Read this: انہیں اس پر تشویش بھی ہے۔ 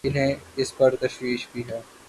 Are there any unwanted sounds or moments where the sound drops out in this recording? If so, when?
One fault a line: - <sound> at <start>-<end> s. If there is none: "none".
none